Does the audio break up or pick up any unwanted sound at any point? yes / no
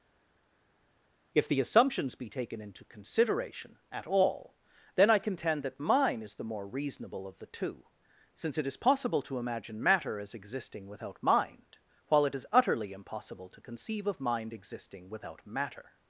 no